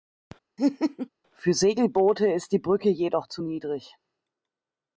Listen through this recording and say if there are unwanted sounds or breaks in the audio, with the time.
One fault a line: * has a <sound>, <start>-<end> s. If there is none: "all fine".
* has a laugh, 0.6-1.1 s